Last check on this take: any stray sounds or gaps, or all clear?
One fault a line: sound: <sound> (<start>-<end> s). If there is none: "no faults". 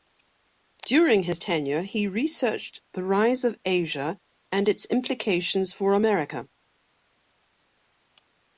no faults